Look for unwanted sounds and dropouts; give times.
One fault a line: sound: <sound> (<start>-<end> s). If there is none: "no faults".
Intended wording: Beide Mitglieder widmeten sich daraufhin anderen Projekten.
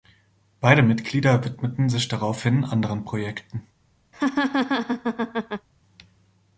sound: laugh (4.1-5.7 s)